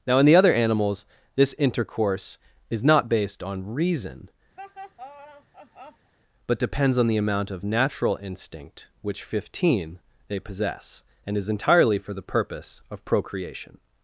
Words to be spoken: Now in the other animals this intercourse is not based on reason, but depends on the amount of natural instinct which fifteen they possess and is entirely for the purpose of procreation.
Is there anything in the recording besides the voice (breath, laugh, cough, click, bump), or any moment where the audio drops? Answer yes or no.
yes